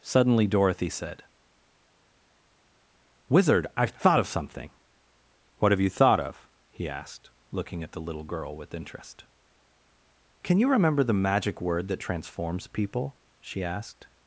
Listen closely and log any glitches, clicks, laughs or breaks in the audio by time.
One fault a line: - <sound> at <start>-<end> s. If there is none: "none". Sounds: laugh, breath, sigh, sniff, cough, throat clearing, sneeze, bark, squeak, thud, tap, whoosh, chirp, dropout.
none